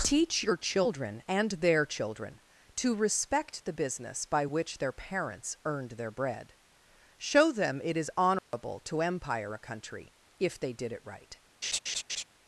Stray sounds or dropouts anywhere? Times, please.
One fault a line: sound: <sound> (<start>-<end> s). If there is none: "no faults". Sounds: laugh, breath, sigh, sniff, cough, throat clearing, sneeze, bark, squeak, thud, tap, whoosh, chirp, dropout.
sound: dropout (8.4-8.5 s)
sound: laugh (11.6-12.2 s)